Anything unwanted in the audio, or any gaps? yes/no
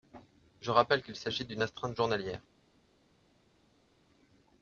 no